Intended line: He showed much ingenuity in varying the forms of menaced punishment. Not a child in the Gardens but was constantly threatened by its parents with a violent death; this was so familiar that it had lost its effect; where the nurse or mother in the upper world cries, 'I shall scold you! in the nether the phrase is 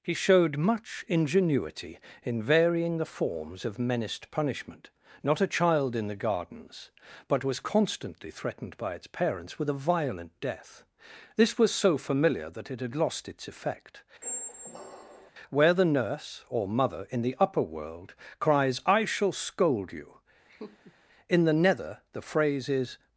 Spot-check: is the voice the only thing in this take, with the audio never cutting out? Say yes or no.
no